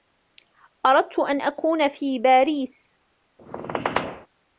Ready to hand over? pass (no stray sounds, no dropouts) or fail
fail